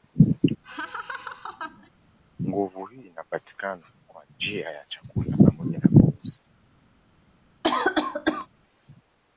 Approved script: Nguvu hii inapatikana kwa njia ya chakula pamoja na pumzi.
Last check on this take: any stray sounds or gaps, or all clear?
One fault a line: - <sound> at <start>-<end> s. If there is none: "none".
- laugh at 0.6-1.9 s
- cough at 7.6-8.5 s